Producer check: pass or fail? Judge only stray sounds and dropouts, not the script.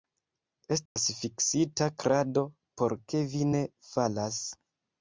fail